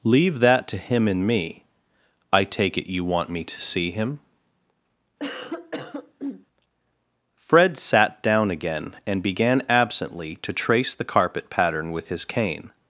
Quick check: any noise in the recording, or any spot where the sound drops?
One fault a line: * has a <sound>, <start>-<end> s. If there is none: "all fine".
* has a cough, 5.2-6.5 s